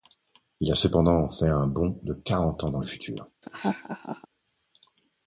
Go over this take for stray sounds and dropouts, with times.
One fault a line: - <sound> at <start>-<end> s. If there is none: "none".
- laugh at 3.4-4.3 s